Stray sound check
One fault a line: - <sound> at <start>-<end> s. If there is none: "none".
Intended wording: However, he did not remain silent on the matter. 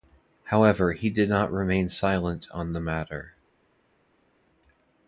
none